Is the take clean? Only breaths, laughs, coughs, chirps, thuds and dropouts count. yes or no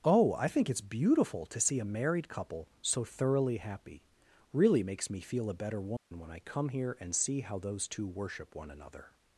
no